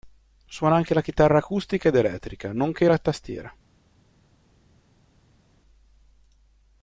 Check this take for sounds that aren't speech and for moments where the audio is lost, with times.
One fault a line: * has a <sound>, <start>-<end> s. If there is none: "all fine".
all fine